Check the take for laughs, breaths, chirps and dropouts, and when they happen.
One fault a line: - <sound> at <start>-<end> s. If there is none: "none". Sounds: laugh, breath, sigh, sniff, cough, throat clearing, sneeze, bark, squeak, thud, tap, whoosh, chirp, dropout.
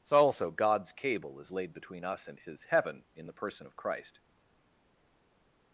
none